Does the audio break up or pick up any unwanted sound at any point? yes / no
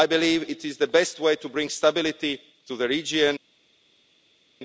no